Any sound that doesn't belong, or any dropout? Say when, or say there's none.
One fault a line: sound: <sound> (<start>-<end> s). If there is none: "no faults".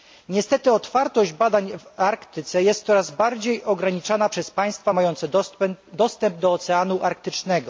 no faults